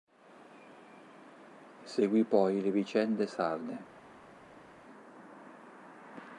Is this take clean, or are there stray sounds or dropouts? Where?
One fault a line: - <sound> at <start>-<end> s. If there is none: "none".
none